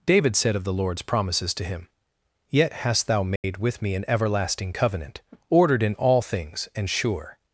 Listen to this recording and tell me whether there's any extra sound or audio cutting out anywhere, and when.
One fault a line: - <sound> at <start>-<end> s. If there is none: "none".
- dropout at 3.4-3.4 s